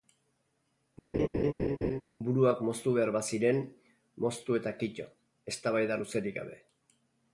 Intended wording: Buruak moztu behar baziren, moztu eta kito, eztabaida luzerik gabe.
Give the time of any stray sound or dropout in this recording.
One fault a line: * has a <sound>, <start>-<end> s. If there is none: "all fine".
* has a laugh, 1.1-2.0 s